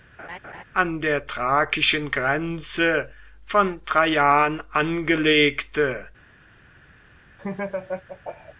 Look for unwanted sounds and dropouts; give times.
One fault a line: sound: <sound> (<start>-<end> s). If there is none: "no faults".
sound: laugh (0.2-0.6 s)
sound: laugh (7.4-8.5 s)